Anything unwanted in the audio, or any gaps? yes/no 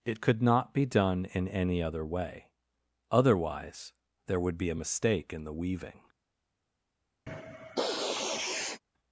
yes